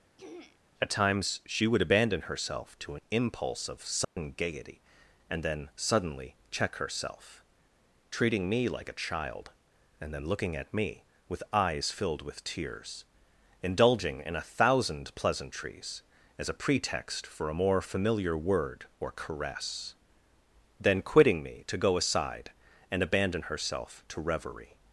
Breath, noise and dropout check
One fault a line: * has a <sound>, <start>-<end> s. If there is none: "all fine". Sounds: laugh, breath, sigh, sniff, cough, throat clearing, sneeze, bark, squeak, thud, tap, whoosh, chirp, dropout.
* has a throat clearing, 0.2-0.6 s
* has a dropout, 4.0-4.2 s